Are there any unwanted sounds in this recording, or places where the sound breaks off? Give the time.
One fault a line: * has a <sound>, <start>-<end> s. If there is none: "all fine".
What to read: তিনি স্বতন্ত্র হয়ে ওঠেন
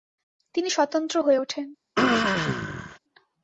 * has a throat clearing, 1.9-3.0 s